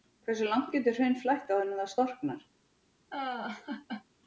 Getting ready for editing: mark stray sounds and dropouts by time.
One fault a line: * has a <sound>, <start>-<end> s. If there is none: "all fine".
* has a laugh, 3.1-4.0 s